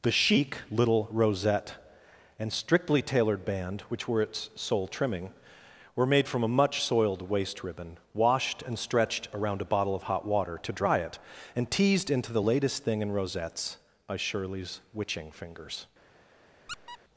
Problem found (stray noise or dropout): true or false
true